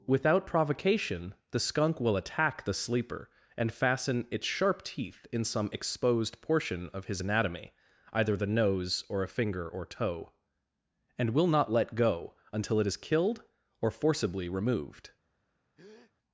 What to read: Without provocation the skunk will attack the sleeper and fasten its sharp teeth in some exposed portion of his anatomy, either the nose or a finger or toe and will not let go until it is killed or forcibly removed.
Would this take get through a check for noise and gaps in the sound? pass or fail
fail